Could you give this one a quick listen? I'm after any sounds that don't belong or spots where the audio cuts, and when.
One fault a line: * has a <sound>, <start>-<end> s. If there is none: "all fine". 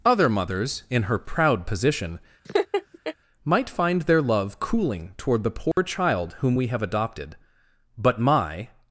* has a laugh, 2.4-3.1 s
* has a dropout, 5.7-5.8 s